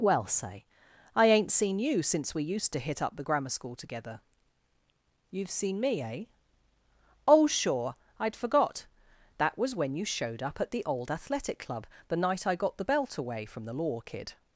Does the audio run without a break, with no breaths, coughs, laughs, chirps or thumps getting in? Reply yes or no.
yes